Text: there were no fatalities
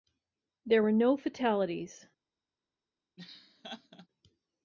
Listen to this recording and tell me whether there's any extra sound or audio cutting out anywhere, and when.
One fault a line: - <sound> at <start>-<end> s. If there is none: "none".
- laugh at 3.2-4.1 s